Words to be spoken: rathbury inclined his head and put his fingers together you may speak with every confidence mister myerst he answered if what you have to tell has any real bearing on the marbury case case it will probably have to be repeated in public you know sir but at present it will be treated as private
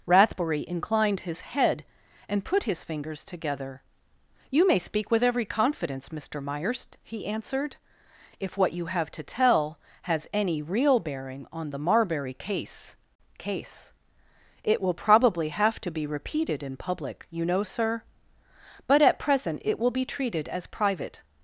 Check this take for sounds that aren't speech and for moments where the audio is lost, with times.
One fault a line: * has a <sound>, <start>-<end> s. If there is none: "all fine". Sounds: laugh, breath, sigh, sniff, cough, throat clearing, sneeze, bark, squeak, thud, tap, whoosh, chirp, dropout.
all fine